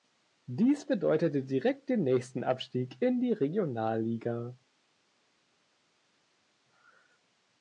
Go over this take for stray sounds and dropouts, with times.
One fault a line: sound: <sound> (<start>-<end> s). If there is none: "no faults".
no faults